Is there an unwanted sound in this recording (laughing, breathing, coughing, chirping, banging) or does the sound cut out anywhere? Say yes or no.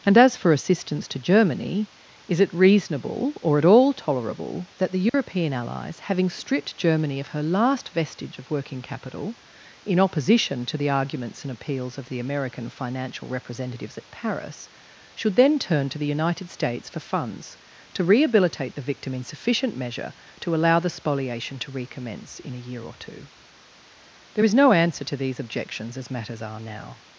yes